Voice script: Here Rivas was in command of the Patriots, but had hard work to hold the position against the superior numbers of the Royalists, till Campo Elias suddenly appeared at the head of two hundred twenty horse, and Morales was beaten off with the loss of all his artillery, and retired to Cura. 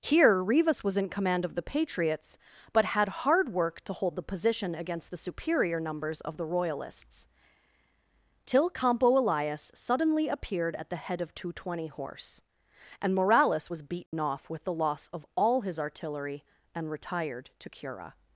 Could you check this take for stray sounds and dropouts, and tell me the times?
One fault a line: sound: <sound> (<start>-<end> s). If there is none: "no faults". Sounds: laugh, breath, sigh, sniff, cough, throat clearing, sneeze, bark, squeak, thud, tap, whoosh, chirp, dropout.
sound: dropout (14.1-14.1 s)